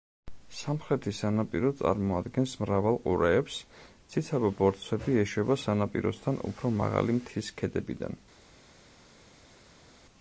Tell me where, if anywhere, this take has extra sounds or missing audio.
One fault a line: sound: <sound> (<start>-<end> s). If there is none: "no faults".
no faults